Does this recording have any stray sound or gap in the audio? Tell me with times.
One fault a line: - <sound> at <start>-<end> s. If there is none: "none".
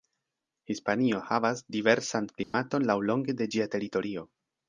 - dropout at 2.4-2.5 s